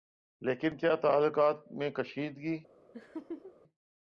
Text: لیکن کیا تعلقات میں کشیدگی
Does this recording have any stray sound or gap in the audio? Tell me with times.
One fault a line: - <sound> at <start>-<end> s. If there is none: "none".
- laugh at 2.9-3.6 s